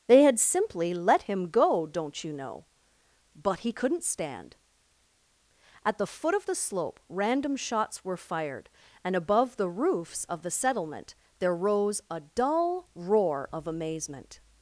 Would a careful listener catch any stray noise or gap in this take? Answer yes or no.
no